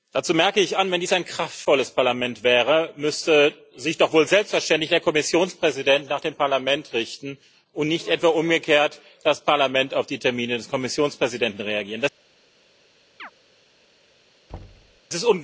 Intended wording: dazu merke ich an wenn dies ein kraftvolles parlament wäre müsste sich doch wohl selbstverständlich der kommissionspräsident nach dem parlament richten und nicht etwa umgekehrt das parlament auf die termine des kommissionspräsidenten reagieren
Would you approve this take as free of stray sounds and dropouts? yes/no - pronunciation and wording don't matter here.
no